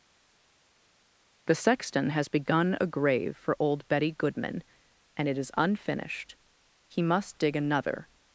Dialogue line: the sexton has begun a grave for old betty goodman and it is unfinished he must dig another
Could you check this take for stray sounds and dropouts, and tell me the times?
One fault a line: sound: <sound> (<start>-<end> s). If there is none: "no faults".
no faults